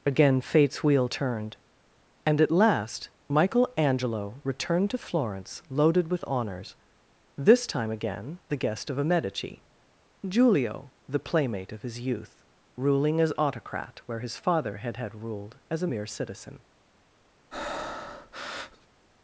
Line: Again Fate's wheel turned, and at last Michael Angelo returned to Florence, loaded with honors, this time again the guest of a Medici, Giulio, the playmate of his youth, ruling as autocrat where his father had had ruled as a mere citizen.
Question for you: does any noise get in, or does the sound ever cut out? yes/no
yes